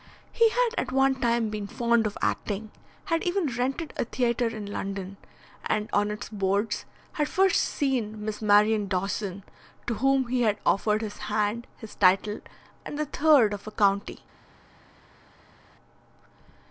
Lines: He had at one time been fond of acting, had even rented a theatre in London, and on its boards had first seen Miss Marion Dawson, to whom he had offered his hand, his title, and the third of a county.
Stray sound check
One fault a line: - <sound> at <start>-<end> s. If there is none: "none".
none